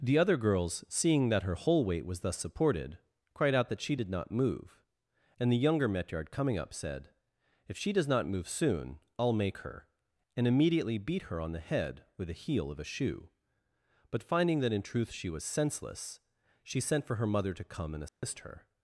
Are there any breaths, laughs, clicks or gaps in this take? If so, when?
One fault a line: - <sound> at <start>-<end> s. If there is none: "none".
- dropout at 18.1-18.2 s